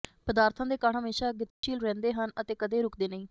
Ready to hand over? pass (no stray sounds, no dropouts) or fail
fail